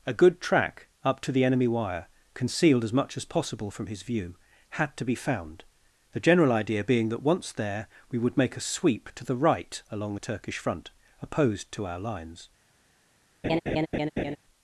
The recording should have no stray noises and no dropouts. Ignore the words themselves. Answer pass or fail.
fail